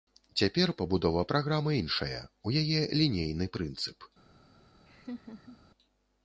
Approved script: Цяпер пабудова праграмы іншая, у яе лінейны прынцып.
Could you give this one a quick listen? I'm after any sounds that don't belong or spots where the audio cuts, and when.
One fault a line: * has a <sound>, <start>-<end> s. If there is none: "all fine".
* has a laugh, 4.9-5.6 s